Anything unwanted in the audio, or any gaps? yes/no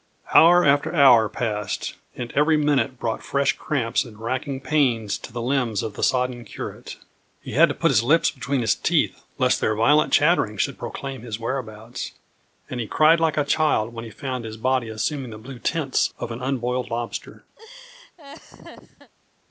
yes